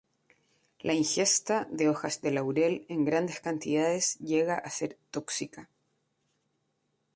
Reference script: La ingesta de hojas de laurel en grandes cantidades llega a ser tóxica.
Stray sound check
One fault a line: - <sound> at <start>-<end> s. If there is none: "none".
none